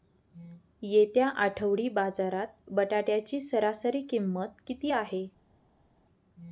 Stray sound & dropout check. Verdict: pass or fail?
pass